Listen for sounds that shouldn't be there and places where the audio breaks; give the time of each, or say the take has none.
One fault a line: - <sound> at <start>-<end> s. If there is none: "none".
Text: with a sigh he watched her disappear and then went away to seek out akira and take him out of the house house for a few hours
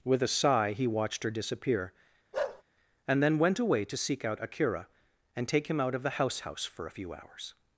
- bark at 2.3-2.6 s